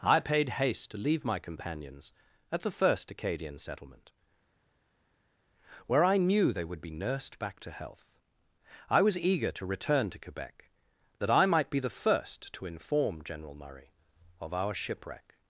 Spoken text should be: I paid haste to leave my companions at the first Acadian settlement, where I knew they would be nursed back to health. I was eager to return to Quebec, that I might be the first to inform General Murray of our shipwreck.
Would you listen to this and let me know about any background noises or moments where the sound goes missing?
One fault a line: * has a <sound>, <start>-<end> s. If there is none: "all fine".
all fine